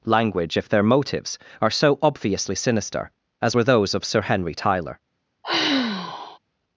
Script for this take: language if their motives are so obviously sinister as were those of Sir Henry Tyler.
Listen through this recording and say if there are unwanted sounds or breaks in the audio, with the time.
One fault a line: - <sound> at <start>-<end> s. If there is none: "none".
- sigh at 5.4-6.4 s